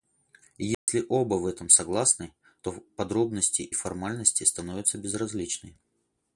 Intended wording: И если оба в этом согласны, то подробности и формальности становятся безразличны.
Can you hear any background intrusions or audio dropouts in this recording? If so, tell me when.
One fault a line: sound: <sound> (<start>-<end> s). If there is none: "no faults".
sound: dropout (0.7-0.9 s)